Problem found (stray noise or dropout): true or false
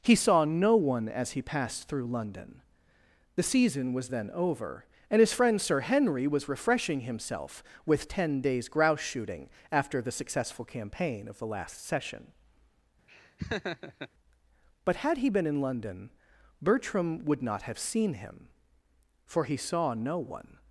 true